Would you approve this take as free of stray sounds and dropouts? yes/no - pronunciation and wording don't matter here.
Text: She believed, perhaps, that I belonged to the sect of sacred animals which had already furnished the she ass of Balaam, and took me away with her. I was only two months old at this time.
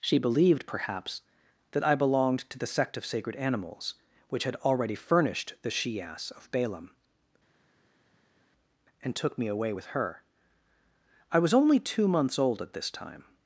yes